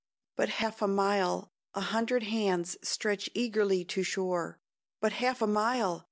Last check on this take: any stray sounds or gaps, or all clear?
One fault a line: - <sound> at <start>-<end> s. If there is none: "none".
none